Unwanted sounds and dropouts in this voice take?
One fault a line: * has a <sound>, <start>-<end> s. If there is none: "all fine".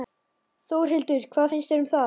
all fine